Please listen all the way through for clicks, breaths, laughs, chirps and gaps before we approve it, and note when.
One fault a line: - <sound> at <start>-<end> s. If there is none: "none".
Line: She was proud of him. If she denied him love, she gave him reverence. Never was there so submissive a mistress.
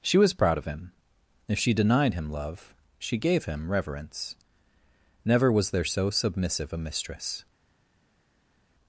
none